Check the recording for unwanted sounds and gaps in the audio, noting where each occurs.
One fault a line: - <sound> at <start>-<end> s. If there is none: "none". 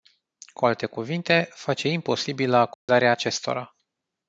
- dropout at 2.7-2.9 s